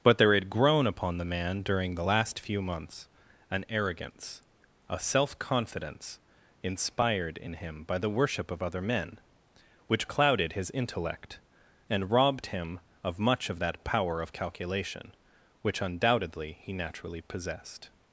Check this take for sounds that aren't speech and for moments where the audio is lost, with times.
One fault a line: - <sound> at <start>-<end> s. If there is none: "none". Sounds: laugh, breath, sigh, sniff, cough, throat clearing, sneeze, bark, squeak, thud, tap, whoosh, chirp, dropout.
none